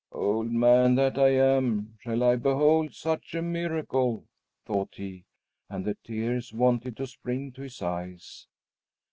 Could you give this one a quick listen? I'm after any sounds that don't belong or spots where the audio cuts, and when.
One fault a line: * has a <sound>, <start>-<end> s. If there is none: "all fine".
all fine